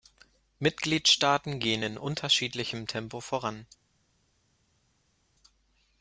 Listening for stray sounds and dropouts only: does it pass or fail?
pass